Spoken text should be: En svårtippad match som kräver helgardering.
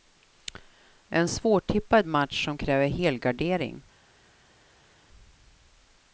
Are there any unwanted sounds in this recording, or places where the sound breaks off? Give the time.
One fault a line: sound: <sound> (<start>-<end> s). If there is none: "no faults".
no faults